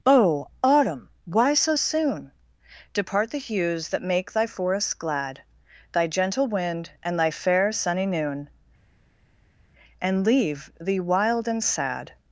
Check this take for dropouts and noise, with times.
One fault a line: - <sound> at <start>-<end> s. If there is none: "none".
none